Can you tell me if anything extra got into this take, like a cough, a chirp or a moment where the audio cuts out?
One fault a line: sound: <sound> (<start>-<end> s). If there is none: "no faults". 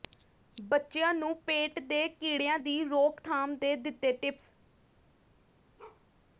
sound: bark (5.8-6.0 s)